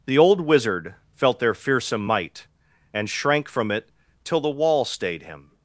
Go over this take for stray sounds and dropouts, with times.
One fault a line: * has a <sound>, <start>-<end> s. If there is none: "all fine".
all fine